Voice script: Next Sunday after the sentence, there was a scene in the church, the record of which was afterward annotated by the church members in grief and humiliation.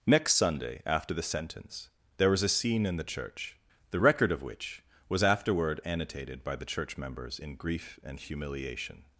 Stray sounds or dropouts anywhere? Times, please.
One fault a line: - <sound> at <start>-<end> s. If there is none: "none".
none